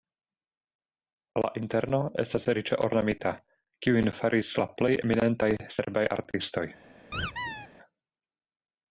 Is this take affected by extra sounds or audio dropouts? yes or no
yes